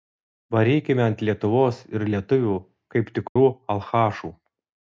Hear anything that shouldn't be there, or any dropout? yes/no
yes